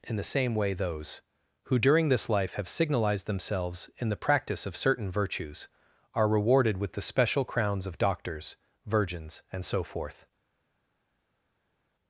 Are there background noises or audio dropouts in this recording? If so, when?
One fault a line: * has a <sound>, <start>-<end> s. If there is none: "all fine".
all fine